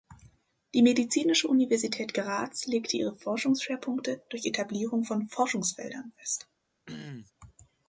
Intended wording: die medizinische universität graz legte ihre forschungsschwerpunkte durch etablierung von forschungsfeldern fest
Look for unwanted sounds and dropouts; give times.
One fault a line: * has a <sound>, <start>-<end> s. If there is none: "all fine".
* has a throat clearing, 6.9-7.3 s